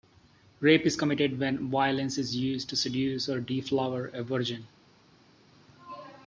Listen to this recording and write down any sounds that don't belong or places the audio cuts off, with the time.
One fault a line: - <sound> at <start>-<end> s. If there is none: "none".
none